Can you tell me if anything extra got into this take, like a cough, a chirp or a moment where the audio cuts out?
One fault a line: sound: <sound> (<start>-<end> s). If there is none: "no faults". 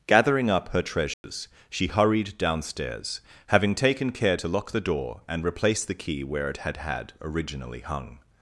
sound: dropout (1.1-1.2 s)